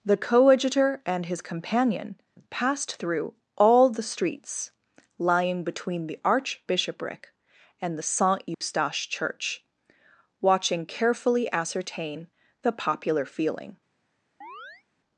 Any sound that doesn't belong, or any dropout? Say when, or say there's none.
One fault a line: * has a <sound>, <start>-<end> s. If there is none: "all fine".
* has a dropout, 8.5-8.6 s
* has a chirp, 14.4-14.8 s